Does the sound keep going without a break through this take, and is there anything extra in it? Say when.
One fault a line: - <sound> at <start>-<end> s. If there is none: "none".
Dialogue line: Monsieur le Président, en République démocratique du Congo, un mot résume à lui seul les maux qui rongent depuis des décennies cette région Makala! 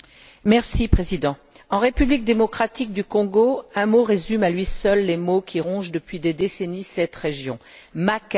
none